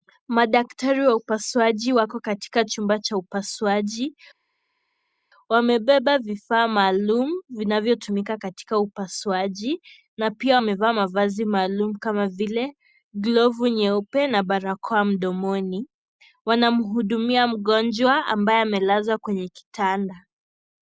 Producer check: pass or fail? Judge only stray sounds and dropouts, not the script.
pass